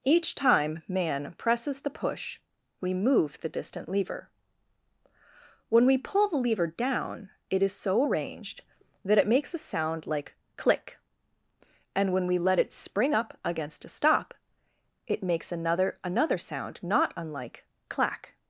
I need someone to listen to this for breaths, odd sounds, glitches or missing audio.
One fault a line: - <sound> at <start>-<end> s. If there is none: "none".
none